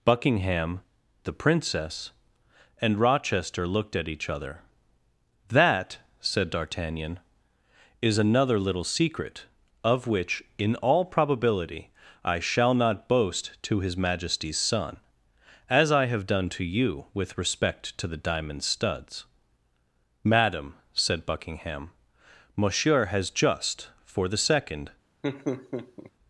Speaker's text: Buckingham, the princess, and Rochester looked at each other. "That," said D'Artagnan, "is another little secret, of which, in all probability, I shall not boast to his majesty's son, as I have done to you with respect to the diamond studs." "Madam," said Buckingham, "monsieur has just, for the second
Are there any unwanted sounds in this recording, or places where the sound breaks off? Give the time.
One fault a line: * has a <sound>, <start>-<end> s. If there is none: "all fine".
* has a laugh, 25.2-26.1 s